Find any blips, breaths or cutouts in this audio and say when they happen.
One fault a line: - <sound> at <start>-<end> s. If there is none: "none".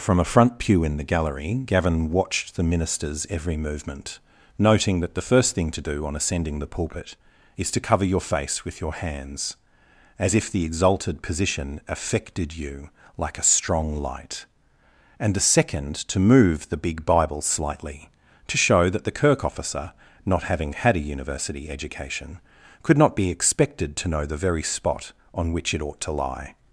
none